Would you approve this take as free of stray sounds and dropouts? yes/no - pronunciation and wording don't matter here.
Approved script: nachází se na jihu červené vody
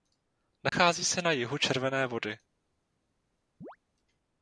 no